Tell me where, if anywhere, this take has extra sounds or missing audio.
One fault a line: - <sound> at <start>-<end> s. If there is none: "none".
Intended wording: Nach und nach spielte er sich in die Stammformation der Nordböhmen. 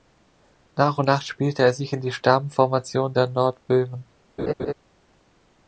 - laugh at 4.4-4.7 s